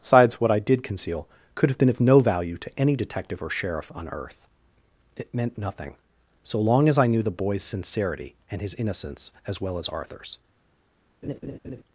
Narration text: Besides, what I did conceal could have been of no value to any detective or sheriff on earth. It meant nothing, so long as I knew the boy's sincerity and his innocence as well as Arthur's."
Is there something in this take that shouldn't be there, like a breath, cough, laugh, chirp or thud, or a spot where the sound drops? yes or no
yes